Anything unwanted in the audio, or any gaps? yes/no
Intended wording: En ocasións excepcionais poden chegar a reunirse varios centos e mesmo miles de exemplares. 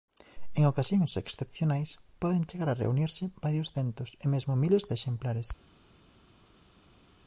no